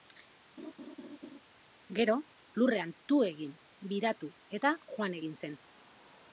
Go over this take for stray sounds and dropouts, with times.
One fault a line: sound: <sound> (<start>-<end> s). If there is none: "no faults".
sound: laugh (0.6-1.4 s)